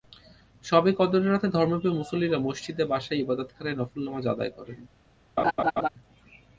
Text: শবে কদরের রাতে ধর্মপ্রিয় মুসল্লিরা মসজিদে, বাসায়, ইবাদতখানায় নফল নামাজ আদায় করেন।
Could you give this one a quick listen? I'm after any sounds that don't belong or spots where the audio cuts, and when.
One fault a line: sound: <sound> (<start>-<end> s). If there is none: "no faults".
sound: laugh (5.4-5.9 s)